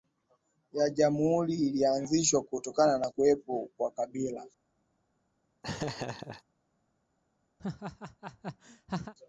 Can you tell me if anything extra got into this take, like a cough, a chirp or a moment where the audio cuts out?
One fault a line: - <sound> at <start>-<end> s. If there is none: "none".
- laugh at 5.6-6.4 s
- laugh at 7.6-9.1 s